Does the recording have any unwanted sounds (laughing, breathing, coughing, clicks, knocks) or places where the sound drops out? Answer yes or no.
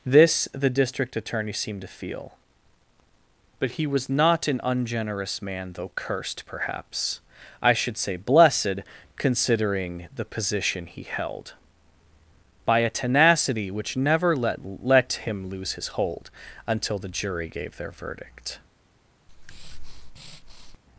yes